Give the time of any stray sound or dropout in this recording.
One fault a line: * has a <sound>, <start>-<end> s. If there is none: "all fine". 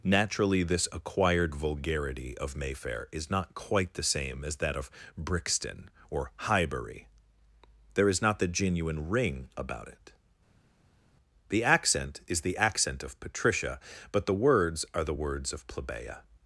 all fine